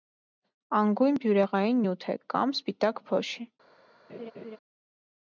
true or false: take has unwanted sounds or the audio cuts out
true